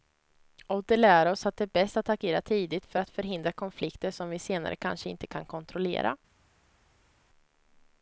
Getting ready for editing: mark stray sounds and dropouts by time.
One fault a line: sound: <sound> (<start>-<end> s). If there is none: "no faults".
no faults